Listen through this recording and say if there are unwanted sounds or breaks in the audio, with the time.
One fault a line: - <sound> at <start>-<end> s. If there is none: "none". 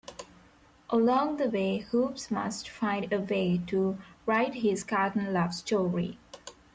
none